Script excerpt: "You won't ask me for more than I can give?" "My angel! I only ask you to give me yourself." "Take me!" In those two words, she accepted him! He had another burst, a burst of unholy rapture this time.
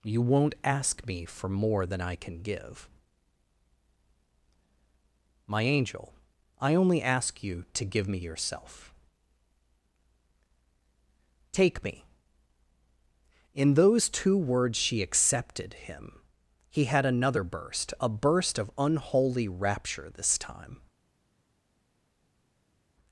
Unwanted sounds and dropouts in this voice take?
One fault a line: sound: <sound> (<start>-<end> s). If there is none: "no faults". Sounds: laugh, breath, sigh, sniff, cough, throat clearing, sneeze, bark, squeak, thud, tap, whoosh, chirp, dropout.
no faults